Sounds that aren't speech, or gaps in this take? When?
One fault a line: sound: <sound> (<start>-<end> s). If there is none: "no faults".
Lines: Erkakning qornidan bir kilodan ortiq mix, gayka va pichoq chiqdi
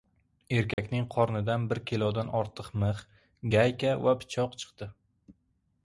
sound: dropout (0.7-0.8 s)